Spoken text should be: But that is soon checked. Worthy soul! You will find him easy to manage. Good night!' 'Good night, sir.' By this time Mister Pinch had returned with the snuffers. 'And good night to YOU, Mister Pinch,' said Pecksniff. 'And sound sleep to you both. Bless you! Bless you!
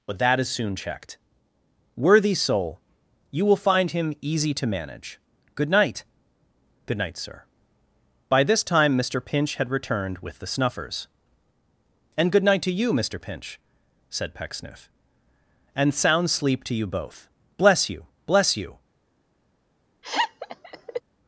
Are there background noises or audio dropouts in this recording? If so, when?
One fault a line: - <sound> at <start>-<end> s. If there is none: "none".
- laugh at 20.0-21.0 s